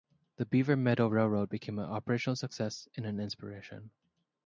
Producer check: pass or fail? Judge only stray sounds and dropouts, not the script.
pass